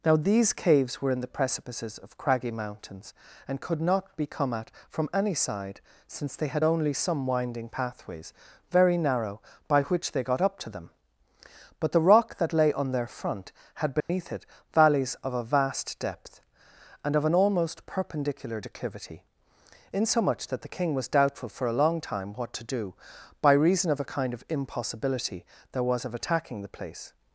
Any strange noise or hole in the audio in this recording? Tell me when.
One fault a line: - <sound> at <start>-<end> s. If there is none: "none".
- dropout at 14.0-14.1 s